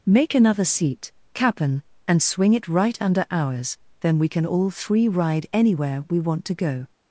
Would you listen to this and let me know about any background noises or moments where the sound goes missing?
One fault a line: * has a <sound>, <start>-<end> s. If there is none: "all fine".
all fine